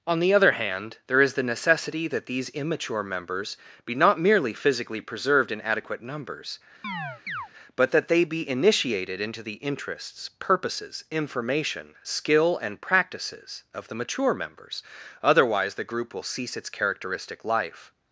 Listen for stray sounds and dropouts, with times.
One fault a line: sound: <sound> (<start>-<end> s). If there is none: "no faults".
sound: chirp (6.8-7.5 s)